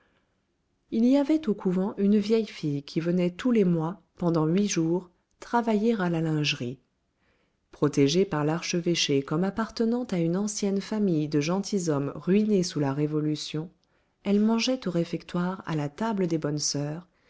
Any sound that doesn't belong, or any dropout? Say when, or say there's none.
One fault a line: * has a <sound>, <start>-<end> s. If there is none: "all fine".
all fine